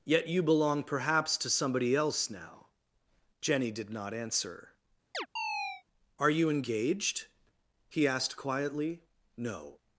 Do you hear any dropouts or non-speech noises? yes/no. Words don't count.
yes